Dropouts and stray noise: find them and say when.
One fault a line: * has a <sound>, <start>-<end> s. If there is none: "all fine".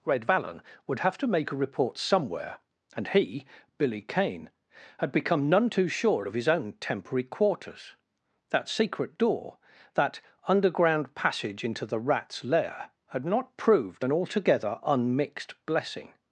all fine